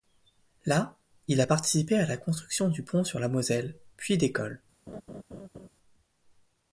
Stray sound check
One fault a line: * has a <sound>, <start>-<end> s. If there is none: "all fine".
* has a laugh, 4.9-5.7 s